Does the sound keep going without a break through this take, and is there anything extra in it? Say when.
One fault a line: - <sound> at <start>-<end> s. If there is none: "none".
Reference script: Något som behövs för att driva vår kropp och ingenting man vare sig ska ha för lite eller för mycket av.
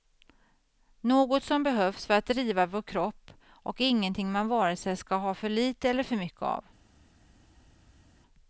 none